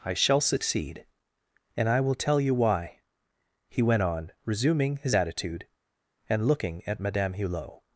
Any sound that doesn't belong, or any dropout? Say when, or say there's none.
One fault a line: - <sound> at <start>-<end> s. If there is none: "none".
none